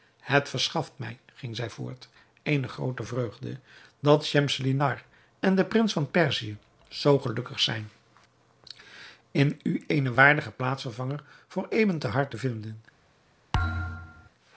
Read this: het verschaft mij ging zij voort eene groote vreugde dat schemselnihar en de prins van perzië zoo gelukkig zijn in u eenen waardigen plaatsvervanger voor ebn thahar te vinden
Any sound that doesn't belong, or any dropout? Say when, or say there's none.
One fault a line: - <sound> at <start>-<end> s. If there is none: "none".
- thud at 13.5-14.3 s